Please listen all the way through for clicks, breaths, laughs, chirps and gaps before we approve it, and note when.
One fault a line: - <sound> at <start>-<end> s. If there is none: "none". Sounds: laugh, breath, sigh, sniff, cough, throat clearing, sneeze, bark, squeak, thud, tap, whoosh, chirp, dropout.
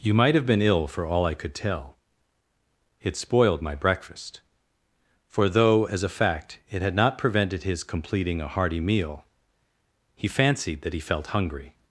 none